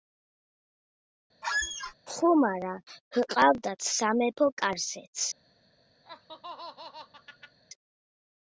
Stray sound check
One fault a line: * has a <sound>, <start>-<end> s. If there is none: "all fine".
* has a squeak, 1.4-1.9 s
* has a laugh, 6.0-7.6 s